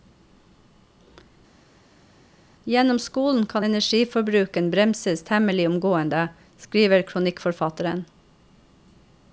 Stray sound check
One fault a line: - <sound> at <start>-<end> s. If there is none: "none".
none